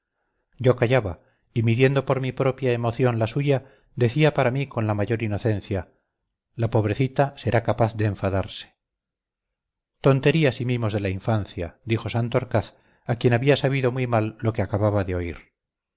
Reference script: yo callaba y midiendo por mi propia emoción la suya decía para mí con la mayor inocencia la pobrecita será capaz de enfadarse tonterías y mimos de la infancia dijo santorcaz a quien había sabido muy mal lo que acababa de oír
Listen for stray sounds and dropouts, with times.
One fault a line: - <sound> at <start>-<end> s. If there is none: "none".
none